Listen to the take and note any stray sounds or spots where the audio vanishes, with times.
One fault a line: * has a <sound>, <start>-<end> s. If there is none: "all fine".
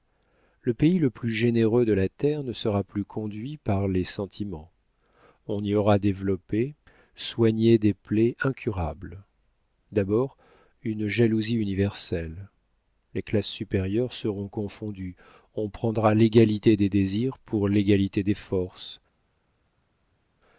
all fine